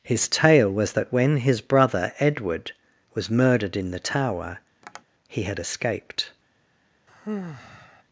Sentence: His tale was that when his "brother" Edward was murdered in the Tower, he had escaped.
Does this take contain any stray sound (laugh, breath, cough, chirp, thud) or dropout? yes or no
yes